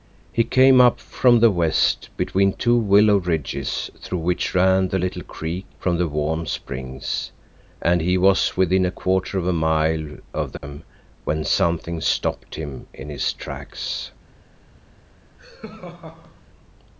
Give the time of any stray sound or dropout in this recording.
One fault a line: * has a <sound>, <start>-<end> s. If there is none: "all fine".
* has a dropout, 10.6-10.6 s
* has a laugh, 15.4-16.4 s